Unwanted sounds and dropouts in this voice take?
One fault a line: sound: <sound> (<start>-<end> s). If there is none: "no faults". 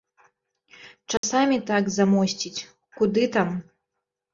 sound: dropout (1.2-1.2 s)